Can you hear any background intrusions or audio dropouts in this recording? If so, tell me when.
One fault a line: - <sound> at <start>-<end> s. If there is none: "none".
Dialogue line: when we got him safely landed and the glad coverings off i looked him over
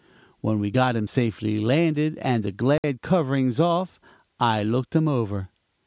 - dropout at 2.8-2.8 s